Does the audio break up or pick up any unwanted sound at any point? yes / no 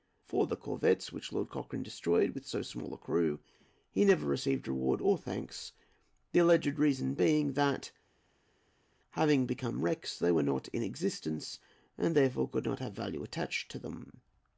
no